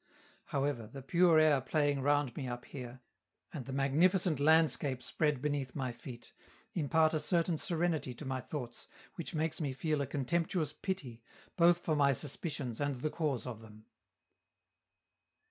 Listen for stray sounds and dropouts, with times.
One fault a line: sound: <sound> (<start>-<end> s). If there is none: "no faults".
no faults